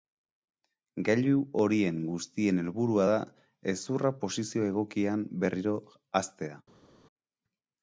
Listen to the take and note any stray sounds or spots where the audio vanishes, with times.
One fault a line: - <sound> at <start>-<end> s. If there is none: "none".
none